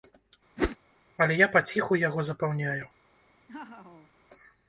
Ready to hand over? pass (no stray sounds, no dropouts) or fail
fail